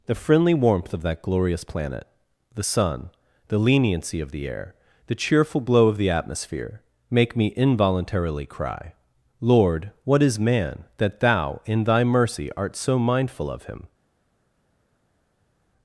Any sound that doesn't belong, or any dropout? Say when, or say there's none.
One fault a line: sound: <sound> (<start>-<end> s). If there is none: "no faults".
no faults